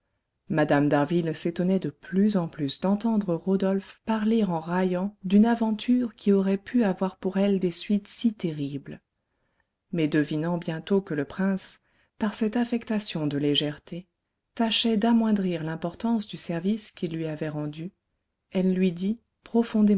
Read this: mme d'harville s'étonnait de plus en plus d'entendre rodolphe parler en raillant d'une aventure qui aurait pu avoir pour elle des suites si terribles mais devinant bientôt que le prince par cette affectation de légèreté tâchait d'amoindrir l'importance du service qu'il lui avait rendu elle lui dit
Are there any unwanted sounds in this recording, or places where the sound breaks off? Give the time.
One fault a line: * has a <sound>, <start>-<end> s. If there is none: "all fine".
all fine